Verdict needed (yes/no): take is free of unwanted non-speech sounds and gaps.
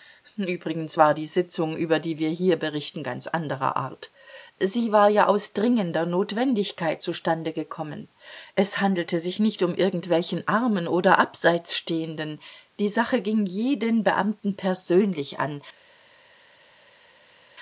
yes